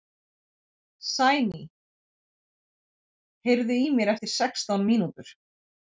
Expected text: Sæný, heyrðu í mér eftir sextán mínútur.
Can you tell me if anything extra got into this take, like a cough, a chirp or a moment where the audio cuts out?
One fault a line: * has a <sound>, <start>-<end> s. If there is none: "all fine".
all fine